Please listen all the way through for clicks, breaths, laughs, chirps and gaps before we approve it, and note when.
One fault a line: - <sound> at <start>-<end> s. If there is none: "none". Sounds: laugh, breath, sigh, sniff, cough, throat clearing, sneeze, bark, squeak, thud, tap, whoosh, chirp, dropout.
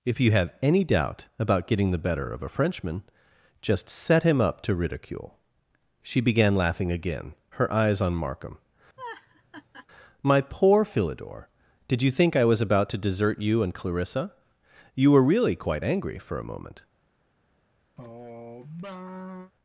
- laugh at 9.0-9.9 s
- sigh at 18.0-19.5 s